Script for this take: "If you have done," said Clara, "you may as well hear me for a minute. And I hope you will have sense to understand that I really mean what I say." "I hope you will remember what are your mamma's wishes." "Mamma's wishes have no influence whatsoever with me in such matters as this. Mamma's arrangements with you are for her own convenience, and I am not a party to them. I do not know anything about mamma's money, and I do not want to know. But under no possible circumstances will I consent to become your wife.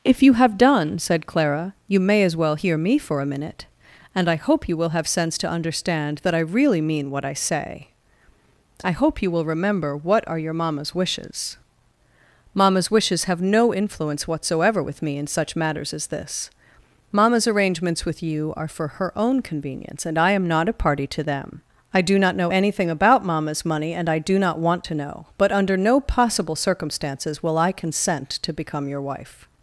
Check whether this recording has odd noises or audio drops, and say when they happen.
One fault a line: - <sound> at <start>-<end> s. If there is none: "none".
none